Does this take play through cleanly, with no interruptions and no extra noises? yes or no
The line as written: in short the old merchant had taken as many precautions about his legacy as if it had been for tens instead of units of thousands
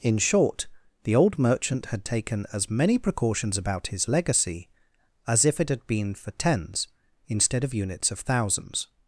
yes